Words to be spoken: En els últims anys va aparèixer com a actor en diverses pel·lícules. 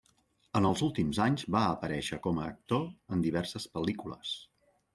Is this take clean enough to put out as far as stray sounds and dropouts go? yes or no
yes